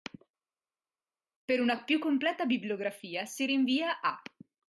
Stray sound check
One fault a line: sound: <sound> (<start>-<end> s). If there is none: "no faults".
no faults